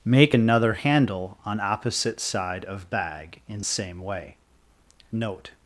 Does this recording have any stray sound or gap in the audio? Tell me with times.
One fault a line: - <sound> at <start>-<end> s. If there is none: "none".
none